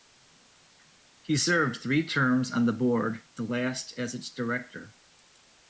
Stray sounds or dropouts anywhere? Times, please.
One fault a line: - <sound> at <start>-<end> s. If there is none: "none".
none